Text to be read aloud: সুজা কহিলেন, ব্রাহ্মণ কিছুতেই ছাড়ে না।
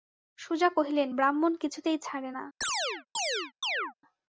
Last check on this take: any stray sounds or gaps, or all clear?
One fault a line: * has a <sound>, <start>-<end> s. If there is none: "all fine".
* has a chirp, 2.6-3.9 s